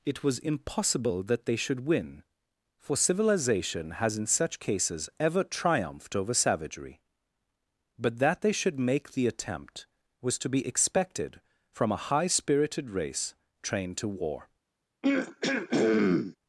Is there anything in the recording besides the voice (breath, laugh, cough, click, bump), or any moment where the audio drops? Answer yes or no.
yes